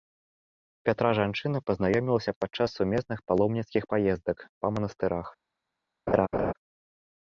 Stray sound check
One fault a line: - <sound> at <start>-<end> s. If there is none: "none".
- laugh at 6.1-6.5 s